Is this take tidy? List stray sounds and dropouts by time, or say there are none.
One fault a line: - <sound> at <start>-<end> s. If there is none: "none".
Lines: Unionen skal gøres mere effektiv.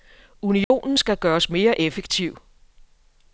- dropout at 0.6-0.7 s